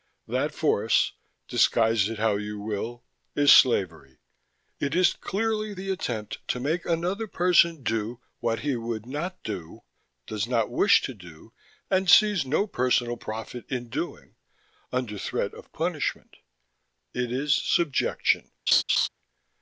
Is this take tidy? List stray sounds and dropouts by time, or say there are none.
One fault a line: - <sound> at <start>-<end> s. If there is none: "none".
- laugh at 18.7-19.1 s